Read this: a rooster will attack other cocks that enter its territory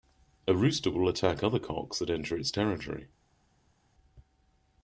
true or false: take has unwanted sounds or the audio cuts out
false